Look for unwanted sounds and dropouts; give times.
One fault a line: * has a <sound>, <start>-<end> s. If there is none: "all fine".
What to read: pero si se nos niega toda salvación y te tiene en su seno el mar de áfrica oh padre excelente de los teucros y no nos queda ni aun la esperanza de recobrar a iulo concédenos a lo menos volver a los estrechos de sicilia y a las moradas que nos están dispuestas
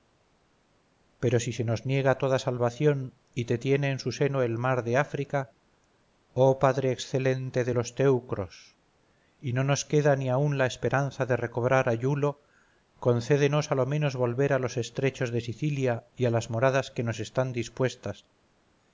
all fine